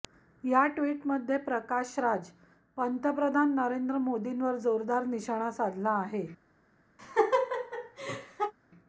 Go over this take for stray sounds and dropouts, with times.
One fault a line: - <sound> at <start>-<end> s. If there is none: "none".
- laugh at 7.0-8.5 s